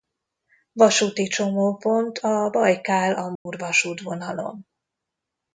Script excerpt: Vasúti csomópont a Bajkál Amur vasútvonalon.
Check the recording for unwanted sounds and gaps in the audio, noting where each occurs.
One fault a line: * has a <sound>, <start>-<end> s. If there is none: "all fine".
* has a dropout, 3.4-3.5 s